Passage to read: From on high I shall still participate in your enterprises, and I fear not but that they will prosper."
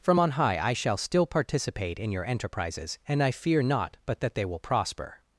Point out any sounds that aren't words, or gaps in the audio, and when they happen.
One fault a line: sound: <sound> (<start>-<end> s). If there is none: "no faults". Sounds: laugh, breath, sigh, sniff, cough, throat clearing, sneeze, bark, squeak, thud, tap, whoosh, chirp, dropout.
no faults